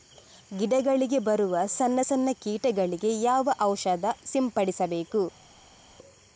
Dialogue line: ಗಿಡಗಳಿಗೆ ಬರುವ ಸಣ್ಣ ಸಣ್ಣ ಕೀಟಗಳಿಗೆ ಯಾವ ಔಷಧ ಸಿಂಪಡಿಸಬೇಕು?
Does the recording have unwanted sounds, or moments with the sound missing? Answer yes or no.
no